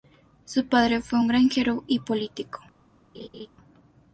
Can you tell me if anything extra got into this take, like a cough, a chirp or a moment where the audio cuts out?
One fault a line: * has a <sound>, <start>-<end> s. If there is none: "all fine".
* has a laugh, 3.1-3.5 s